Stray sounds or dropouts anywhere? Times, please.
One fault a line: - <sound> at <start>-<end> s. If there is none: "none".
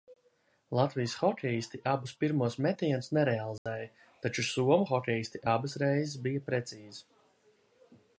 - dropout at 3.6-3.7 s